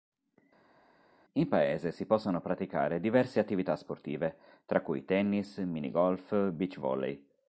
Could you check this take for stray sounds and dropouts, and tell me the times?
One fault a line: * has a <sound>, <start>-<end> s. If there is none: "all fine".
all fine